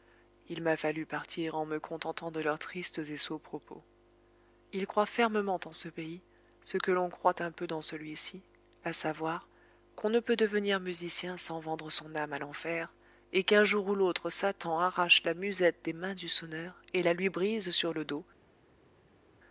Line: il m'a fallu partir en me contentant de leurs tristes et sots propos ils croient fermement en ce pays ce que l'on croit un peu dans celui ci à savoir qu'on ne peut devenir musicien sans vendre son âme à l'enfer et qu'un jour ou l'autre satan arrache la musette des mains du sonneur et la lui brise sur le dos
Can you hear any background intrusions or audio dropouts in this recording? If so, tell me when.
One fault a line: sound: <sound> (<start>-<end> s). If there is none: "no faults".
no faults